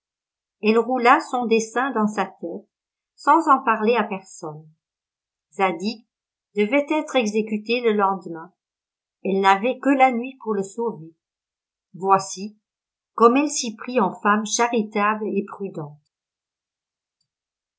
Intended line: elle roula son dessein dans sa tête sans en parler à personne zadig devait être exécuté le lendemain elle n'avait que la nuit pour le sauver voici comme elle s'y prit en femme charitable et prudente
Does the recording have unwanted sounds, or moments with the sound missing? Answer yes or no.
no